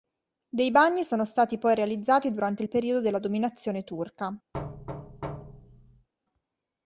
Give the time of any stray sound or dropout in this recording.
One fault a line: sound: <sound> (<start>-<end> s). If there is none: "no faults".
sound: thud (4.5-6.1 s)